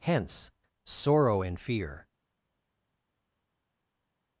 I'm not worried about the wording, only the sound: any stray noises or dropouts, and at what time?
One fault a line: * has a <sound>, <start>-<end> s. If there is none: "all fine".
all fine